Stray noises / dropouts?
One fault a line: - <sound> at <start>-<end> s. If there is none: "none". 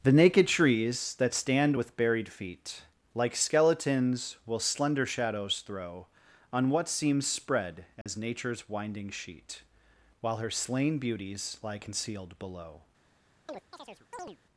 - dropout at 8.0-8.1 s
- chirp at 13.5-14.4 s